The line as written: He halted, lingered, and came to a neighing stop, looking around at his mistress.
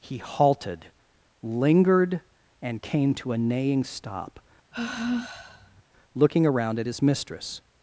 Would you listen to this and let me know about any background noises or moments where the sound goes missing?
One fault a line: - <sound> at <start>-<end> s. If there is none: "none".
- sigh at 4.7-5.8 s